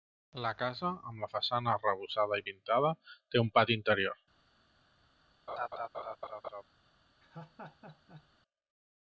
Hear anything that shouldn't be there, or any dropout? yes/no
yes